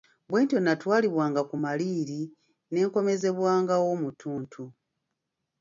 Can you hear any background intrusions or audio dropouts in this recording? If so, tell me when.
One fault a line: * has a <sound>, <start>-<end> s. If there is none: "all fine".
all fine